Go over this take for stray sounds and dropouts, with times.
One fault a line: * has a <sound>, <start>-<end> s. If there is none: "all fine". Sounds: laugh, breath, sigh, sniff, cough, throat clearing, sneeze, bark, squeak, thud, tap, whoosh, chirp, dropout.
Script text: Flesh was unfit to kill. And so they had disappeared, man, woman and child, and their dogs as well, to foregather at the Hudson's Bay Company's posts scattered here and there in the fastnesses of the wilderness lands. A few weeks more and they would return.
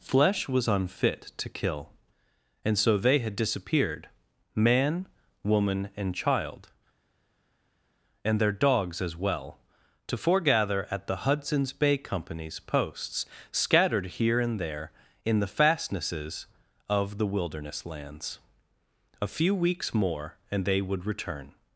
all fine